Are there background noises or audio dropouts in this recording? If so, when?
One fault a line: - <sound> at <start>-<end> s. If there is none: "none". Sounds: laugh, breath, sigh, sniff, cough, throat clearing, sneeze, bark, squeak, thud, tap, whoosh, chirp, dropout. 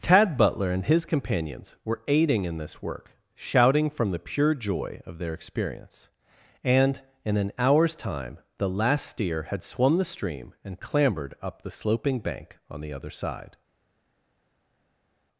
none